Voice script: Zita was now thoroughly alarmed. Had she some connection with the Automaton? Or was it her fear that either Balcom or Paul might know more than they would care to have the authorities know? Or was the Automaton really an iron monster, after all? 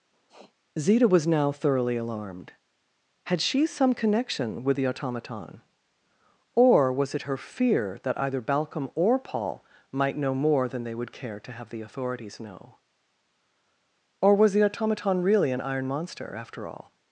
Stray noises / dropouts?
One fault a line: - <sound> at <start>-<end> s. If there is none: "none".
- sniff at 0.1-0.5 s